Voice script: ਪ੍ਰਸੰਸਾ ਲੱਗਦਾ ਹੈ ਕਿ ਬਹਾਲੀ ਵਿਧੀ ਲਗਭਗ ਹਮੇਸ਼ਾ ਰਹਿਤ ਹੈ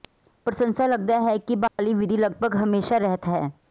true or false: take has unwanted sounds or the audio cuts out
true